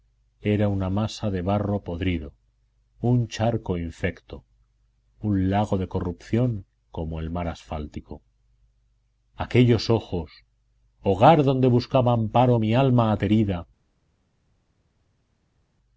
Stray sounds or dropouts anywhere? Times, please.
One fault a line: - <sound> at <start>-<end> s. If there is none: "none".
none